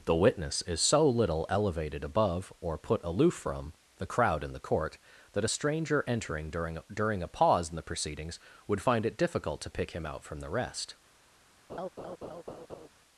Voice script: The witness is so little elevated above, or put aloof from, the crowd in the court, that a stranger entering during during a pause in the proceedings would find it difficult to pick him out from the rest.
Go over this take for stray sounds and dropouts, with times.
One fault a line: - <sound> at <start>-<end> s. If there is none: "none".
- laugh at 11.7-12.9 s